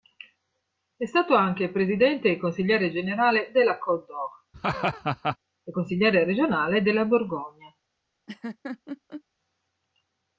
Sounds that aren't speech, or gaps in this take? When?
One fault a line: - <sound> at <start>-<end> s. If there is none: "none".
- laugh at 4.5-5.4 s
- laugh at 8.3-9.2 s